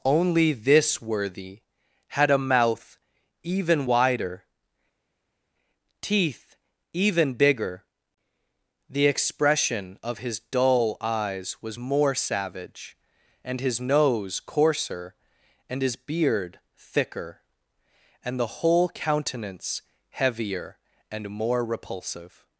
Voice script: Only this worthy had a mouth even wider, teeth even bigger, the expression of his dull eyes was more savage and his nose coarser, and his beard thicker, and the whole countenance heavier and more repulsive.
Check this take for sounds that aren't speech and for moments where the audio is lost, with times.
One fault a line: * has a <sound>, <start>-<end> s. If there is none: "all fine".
all fine